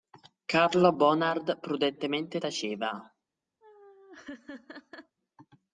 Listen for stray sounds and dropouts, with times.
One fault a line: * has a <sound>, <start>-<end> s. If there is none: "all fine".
* has a laugh, 3.6-5.2 s